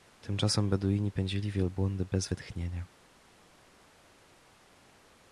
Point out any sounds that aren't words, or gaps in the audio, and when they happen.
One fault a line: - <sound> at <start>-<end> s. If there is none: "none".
none